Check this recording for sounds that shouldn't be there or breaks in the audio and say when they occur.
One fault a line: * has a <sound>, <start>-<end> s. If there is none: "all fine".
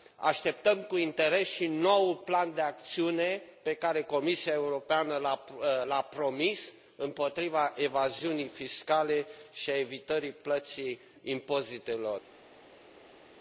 all fine